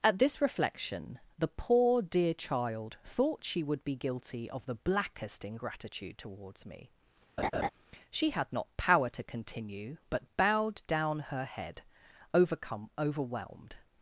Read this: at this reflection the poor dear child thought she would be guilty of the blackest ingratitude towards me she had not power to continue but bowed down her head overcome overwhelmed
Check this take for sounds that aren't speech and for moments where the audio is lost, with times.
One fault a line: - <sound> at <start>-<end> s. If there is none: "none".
- laugh at 7.4-7.7 s